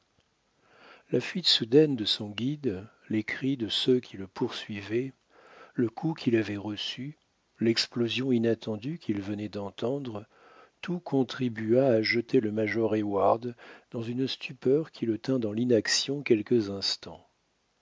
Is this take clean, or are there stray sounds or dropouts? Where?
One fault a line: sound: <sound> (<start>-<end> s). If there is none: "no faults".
no faults